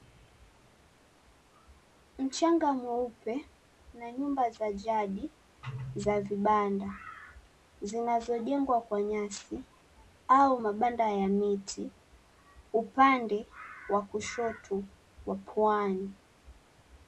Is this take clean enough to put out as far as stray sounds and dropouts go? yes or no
yes